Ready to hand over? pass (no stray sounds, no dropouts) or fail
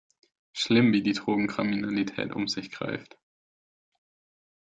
pass